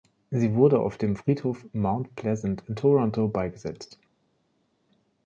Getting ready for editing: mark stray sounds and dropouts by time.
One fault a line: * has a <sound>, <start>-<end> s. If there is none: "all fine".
all fine